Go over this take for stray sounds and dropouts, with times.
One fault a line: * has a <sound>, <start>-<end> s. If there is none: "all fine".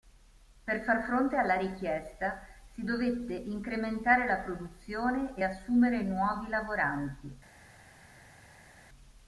all fine